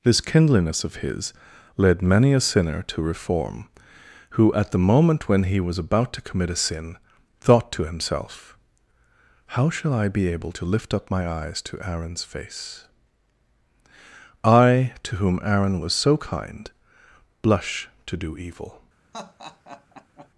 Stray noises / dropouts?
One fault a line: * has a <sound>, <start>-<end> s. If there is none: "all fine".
* has a laugh, 19.1-20.3 s